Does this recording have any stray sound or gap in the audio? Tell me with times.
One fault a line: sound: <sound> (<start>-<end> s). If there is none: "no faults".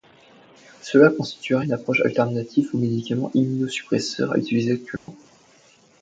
sound: dropout (5.0-5.1 s)